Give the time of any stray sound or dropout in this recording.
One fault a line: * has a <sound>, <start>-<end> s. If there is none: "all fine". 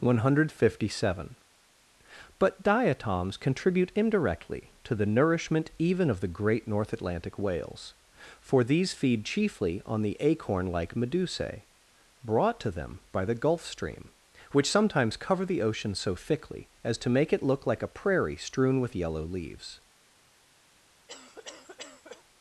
* has a cough, 21.1-22.2 s